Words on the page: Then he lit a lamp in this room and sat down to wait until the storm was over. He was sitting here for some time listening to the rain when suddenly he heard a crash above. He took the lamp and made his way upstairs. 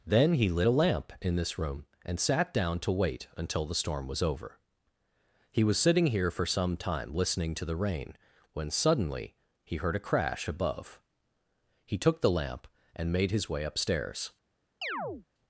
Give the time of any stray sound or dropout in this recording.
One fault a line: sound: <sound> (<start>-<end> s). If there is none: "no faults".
sound: chirp (14.8-15.3 s)